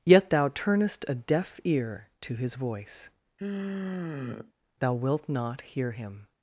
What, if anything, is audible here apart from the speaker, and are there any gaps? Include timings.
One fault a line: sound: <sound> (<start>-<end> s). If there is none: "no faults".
sound: sigh (3.4-4.5 s)